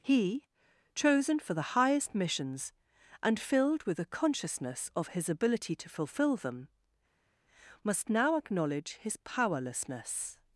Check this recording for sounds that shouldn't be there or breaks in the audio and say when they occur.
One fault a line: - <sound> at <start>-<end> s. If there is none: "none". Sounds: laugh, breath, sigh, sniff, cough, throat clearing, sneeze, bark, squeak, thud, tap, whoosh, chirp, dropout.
none